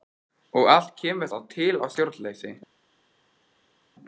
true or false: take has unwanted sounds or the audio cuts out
false